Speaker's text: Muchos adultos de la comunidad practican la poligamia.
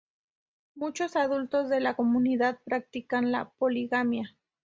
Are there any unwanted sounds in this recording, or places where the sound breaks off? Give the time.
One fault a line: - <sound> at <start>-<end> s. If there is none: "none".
none